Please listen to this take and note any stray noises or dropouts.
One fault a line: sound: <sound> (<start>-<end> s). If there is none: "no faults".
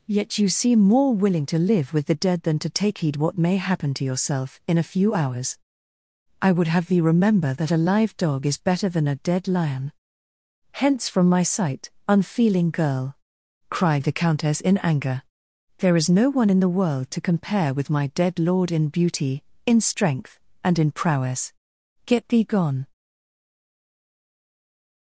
no faults